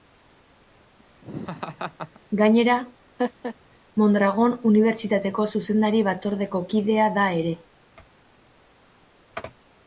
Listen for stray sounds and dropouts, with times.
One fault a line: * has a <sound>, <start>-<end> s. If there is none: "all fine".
* has a laugh, 1.2-2.2 s
* has a laugh, 3.2-3.6 s